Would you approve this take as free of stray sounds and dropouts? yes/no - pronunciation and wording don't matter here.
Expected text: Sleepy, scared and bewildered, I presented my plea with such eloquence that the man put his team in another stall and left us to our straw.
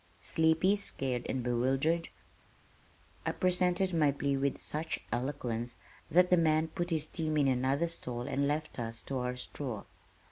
yes